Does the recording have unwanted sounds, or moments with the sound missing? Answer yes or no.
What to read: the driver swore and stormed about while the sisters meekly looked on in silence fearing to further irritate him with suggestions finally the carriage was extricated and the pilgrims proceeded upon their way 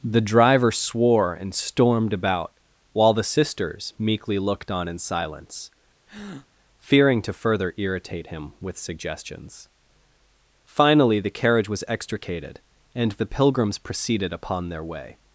yes